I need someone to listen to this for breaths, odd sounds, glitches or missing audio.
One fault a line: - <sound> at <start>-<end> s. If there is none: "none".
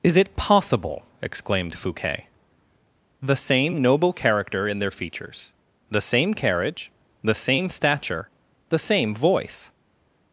none